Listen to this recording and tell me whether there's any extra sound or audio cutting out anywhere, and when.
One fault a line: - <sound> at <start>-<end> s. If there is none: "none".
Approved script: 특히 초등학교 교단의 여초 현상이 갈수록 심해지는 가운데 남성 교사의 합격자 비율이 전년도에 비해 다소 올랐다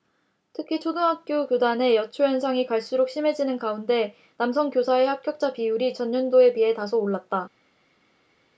none